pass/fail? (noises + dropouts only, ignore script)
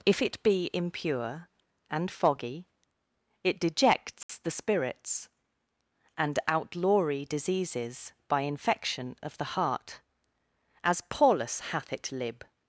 fail